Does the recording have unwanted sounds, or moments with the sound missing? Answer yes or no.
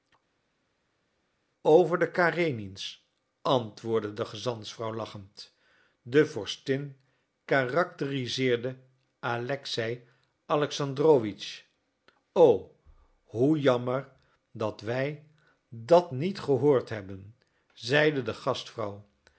no